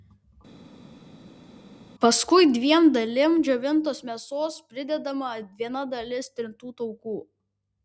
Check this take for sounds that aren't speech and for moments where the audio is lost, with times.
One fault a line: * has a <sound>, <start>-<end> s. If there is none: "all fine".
all fine